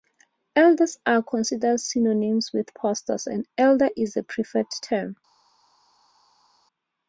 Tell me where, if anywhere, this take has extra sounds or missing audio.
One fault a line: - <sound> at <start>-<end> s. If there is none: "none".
none